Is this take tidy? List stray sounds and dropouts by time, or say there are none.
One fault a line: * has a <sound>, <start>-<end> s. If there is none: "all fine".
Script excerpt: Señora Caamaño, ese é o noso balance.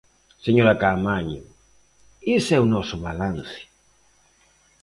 all fine